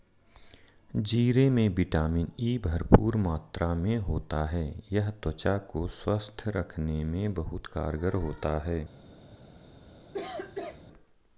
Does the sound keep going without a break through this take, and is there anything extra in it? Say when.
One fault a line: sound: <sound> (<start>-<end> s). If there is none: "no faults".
sound: cough (10.1-10.8 s)